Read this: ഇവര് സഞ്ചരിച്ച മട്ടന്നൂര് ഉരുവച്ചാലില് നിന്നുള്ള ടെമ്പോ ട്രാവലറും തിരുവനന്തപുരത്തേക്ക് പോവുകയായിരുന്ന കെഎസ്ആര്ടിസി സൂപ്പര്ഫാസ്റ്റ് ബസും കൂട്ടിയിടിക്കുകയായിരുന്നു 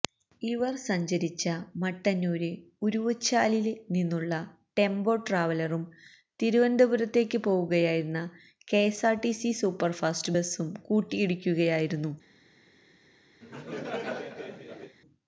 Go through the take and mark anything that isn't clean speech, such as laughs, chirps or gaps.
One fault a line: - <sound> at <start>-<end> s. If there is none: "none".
- laugh at 13.4-15.0 s